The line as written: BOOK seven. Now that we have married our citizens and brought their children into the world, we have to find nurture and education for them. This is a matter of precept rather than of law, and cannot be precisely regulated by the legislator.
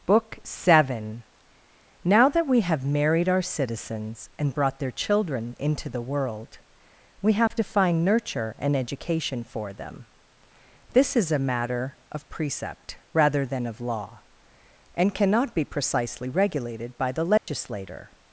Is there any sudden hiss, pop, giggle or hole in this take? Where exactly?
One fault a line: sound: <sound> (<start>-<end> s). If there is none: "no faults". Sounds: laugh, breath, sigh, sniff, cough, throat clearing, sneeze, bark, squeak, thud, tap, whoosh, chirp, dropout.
sound: dropout (7.5-7.5 s)
sound: dropout (17.4-17.5 s)